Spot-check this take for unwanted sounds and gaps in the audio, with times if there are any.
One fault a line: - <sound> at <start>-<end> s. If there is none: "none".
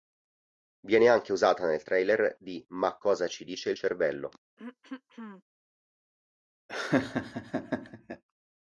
- throat clearing at 4.6-5.4 s
- laugh at 6.7-8.2 s